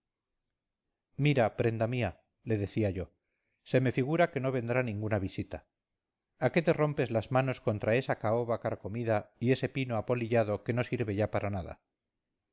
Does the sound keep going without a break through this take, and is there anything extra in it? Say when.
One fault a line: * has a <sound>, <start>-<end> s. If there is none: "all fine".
all fine